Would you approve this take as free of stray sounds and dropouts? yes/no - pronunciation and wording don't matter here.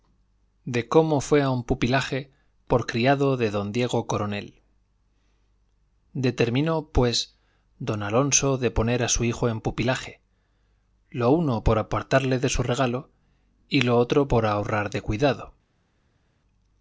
yes